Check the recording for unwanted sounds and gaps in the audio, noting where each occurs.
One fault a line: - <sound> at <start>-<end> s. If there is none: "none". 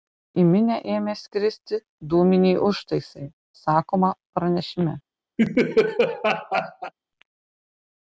- laugh at 5.4-6.9 s